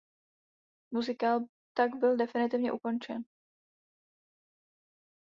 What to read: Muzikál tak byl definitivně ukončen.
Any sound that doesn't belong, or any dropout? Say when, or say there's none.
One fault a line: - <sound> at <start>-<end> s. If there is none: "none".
none